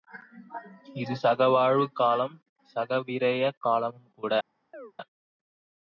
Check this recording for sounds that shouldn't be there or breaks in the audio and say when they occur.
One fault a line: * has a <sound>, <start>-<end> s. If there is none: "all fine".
* has a chirp, 4.7-4.9 s